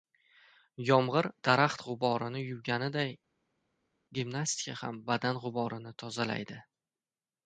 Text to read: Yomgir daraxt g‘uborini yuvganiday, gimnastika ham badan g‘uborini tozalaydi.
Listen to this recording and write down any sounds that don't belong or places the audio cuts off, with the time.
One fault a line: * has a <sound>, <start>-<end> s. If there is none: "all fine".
all fine